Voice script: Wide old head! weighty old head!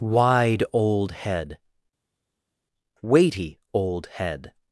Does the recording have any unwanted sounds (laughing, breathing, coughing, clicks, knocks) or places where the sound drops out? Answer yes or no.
no